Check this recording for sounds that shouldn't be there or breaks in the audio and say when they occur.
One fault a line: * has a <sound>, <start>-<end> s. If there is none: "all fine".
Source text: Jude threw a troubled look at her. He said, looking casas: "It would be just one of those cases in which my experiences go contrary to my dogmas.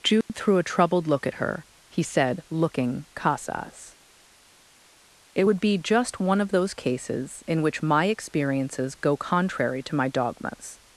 * has a dropout, 0.2-0.3 s